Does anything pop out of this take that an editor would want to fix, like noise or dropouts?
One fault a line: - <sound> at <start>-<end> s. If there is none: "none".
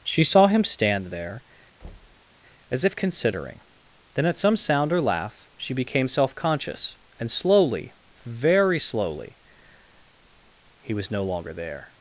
- thud at 1.8-2.3 s